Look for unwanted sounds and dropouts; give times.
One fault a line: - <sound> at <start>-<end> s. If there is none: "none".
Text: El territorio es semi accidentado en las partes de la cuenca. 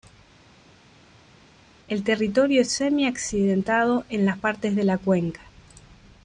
none